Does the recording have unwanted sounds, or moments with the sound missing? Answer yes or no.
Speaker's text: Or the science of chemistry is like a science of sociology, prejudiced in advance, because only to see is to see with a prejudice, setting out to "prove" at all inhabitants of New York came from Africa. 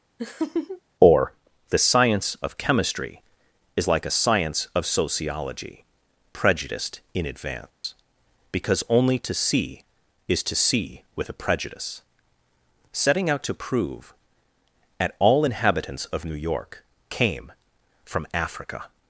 yes